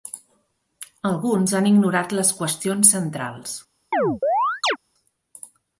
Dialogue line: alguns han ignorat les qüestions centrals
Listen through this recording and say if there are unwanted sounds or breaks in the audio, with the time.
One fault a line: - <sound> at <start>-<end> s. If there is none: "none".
- chirp at 3.9-4.8 s